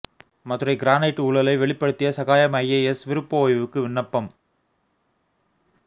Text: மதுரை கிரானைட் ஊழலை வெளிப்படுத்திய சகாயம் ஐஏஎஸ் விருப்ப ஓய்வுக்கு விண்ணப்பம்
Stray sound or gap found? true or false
false